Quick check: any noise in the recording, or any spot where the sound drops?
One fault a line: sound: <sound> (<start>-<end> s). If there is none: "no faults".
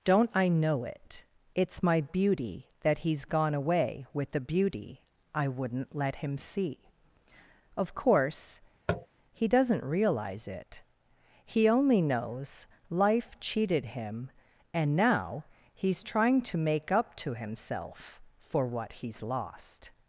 sound: tap (8.9-9.1 s)